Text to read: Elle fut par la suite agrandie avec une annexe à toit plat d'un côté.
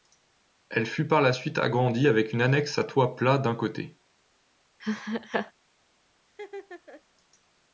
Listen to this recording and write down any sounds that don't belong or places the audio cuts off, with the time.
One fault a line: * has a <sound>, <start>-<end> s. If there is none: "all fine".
* has a laugh, 4.8-5.5 s
* has a laugh, 6.3-7.0 s